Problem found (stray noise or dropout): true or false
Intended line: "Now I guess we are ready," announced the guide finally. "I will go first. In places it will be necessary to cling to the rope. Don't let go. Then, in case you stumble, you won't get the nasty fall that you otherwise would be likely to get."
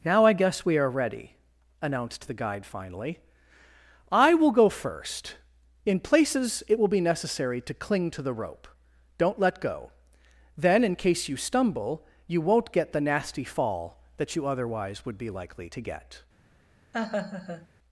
true